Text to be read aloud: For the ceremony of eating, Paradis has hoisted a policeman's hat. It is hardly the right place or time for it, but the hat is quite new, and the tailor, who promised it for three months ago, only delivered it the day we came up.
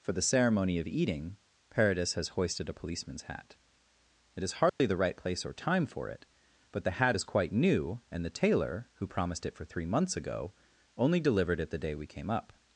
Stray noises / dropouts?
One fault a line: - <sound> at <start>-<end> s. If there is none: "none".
- dropout at 4.7-4.8 s